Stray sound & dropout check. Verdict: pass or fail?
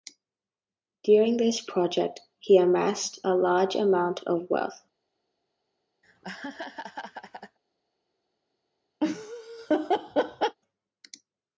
fail